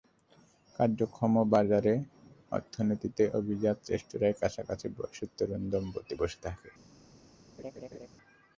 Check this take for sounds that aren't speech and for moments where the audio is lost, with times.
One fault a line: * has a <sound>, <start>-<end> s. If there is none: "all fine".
* has a laugh, 7.6-8.1 s